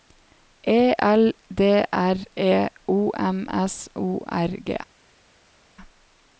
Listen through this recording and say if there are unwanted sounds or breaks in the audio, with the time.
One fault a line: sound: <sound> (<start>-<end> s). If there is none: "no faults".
no faults